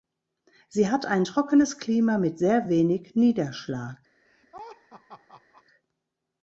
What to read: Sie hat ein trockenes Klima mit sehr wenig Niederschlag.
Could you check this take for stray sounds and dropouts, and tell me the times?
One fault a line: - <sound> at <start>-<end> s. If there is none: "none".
- laugh at 4.2-5.6 s